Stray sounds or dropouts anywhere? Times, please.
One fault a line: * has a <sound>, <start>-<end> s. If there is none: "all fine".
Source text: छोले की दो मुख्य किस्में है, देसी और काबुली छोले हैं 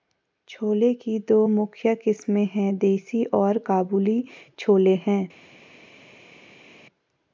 all fine